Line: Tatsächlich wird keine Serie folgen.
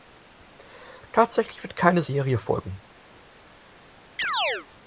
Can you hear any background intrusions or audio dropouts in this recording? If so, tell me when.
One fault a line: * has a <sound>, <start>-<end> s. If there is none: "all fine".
* has a chirp, 4.2-4.7 s